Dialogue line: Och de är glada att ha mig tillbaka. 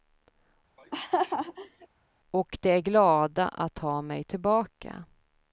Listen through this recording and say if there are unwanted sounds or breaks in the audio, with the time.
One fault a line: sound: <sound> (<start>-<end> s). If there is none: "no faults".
sound: laugh (0.8-1.9 s)